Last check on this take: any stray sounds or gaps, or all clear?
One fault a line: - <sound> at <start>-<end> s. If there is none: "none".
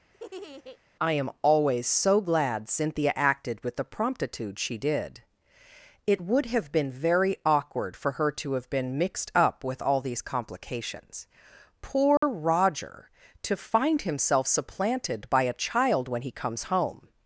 - laugh at 0.1-0.8 s
- dropout at 12.2-12.2 s